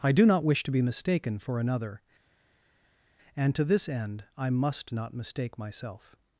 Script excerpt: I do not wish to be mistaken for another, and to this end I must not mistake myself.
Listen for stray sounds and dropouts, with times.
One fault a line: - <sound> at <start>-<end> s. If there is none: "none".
none